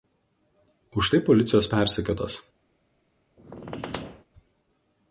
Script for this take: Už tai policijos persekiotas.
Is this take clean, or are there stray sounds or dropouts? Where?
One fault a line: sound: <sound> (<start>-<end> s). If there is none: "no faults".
sound: squeak (3.4-4.2 s)